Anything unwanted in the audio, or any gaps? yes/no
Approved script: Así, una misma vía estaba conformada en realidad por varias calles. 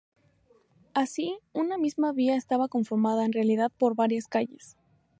no